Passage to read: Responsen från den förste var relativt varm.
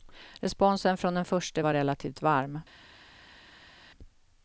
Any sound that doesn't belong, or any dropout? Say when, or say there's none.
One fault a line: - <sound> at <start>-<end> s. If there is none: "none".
none